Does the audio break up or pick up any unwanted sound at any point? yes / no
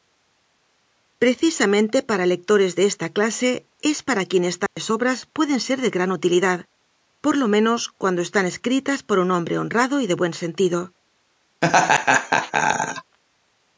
yes